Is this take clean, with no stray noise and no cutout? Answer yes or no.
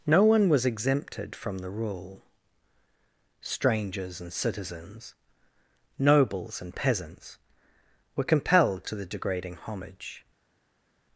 yes